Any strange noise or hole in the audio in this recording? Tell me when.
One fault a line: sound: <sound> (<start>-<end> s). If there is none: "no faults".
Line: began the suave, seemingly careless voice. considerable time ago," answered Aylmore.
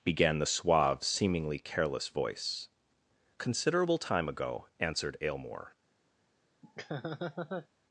sound: laugh (6.6-7.7 s)